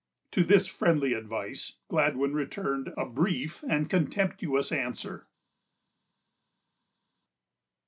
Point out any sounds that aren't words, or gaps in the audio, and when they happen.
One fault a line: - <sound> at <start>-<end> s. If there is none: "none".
none